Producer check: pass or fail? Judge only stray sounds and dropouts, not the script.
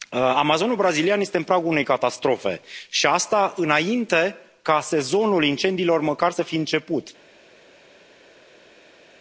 pass